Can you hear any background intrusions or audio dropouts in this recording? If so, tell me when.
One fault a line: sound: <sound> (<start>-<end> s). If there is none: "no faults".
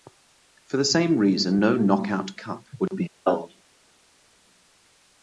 no faults